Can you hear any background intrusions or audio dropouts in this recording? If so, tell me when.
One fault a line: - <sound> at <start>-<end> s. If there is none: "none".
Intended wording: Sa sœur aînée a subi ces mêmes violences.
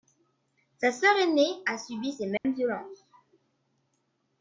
- dropout at 2.4-2.4 s